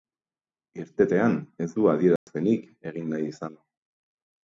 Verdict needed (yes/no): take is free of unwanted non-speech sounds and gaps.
no